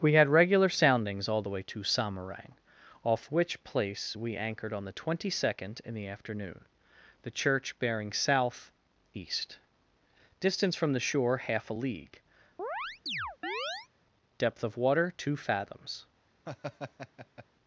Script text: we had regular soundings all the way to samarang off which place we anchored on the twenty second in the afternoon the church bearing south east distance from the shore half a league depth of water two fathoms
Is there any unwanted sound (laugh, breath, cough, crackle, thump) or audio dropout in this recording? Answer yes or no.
yes